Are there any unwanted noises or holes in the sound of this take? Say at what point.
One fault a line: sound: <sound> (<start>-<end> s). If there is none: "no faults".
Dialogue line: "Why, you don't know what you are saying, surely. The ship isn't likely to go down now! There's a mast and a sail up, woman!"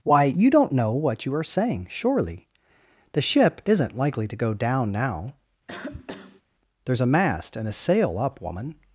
sound: cough (5.7-6.4 s)